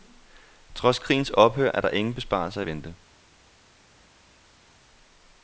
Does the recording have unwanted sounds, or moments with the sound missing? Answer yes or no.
no